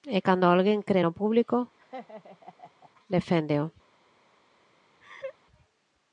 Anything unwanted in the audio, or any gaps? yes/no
yes